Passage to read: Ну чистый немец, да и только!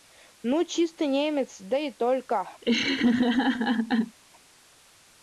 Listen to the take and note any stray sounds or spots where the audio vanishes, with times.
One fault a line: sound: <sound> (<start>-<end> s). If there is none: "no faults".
sound: laugh (2.6-4.2 s)